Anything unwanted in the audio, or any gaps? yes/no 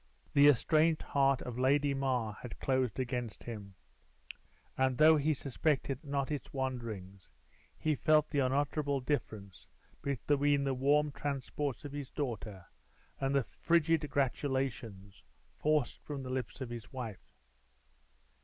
no